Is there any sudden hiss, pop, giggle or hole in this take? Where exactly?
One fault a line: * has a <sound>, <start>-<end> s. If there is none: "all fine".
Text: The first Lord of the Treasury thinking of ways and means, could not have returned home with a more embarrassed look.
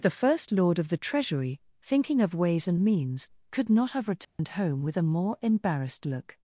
* has a dropout, 4.2-4.4 s